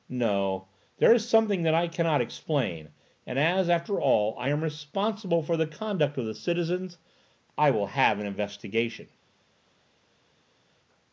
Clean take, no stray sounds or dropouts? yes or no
yes